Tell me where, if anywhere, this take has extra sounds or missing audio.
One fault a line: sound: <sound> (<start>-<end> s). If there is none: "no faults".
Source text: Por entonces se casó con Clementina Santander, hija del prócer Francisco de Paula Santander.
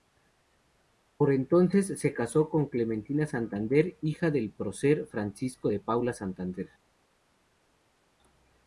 no faults